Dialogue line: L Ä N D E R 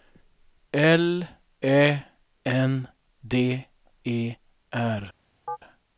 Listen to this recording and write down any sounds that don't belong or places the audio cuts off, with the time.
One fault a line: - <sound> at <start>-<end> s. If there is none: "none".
- chirp at 5.5-5.6 s